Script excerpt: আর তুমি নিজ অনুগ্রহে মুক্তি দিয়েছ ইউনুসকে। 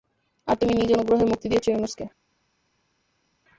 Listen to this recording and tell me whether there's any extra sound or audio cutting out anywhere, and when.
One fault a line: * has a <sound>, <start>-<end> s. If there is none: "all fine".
all fine